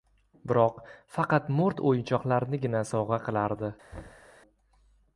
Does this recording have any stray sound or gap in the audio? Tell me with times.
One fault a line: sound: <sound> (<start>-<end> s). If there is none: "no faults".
sound: thud (3.9-4.3 s)